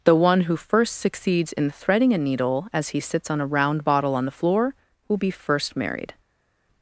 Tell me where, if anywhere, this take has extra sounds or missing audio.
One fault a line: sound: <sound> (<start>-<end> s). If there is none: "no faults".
no faults